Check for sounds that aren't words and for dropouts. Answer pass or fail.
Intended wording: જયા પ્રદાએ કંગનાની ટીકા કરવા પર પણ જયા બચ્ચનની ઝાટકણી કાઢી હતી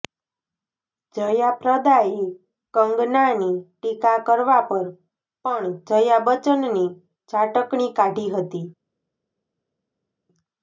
pass